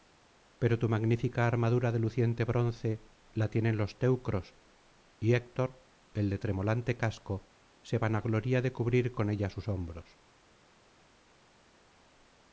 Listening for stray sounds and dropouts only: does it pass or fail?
pass